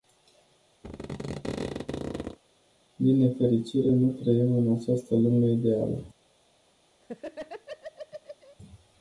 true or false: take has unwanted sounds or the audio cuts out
true